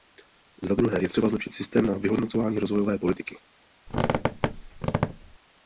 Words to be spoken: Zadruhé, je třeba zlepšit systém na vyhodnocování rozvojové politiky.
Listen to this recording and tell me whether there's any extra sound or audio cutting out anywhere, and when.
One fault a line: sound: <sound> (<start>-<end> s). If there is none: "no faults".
sound: squeak (3.9-5.4 s)